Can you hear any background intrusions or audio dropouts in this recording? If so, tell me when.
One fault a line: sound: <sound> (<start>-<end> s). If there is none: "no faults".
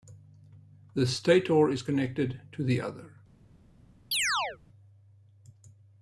sound: chirp (4.1-4.6 s)